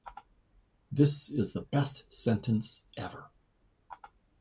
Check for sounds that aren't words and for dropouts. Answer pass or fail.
pass